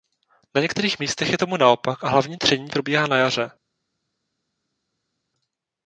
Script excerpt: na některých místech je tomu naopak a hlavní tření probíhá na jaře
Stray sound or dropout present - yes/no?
no